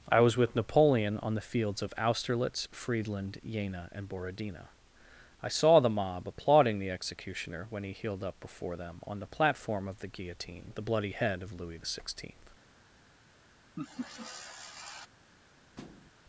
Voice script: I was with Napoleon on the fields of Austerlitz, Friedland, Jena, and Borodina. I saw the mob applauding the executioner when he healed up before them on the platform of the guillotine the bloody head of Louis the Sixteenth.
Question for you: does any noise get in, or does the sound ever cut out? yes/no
yes